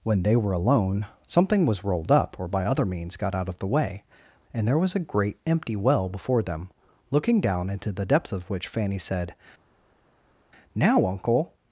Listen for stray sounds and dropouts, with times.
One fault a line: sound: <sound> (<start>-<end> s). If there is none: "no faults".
no faults